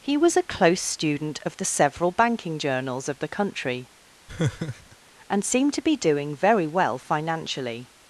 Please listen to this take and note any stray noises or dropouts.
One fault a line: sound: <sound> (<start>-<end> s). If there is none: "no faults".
sound: laugh (4.3-5.0 s)